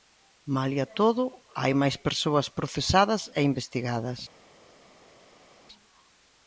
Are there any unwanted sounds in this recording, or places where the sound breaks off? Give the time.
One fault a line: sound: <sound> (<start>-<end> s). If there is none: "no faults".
no faults